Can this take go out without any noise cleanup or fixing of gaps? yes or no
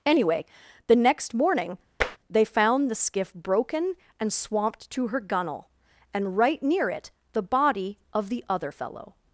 no